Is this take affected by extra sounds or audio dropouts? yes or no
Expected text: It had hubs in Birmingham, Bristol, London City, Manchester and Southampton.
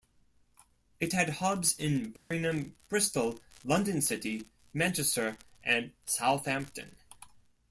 yes